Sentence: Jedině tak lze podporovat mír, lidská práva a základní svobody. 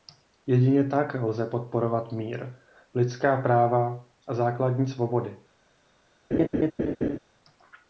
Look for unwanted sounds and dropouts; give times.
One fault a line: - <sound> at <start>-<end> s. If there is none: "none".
- laugh at 6.3-7.2 s